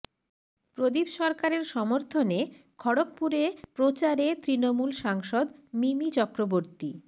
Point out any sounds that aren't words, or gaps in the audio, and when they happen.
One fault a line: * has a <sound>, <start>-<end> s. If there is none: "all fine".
all fine